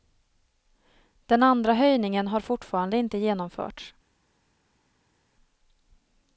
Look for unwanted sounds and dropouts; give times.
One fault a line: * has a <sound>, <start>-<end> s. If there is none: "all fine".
all fine